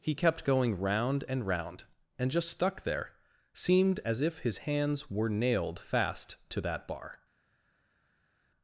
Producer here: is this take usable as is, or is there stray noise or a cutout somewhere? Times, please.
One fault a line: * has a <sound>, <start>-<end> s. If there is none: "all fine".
all fine